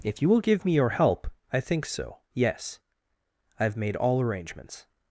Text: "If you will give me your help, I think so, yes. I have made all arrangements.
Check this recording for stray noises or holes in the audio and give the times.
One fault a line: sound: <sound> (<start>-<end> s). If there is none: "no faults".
no faults